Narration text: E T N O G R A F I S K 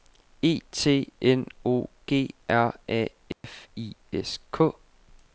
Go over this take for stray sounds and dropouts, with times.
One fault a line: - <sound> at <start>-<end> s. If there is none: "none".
- dropout at 3.3-3.4 s